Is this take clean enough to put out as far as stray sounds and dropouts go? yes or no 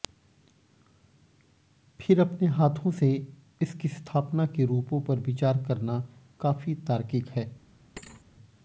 no